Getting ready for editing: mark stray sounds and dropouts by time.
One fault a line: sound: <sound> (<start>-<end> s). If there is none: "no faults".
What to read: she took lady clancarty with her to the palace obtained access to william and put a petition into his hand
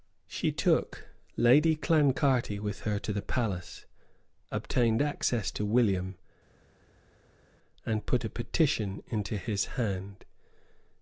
no faults